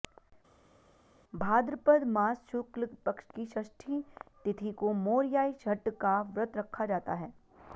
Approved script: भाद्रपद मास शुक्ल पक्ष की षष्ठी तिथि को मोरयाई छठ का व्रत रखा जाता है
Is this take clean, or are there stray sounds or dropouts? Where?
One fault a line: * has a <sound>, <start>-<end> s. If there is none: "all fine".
all fine